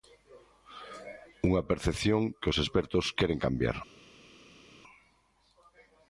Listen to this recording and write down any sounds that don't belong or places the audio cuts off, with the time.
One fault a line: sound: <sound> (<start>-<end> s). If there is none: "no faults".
no faults